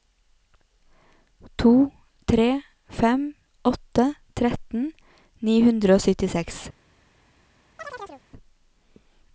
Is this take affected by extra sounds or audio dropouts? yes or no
yes